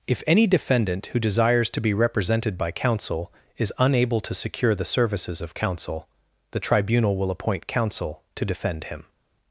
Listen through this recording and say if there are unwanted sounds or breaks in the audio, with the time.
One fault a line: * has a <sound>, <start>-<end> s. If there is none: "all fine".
all fine